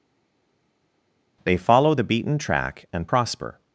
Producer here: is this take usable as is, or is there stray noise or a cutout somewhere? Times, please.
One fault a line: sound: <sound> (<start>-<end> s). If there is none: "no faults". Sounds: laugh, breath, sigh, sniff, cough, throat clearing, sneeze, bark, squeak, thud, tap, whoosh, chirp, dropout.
no faults